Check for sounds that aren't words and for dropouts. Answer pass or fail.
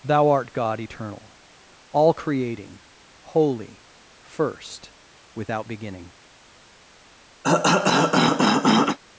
fail